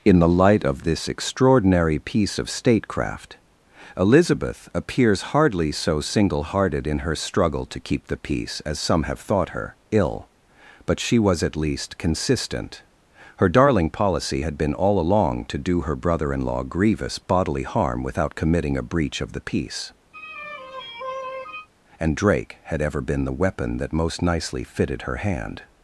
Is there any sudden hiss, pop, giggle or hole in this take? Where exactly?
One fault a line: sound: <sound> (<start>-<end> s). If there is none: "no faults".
sound: sigh (20.1-21.7 s)